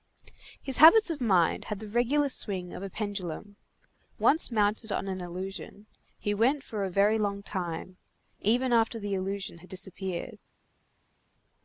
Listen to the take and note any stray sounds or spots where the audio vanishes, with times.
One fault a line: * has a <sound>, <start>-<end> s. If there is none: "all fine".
all fine